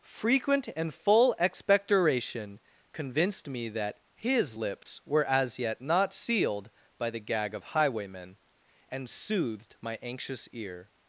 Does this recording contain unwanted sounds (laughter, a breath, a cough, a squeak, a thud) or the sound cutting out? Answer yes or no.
yes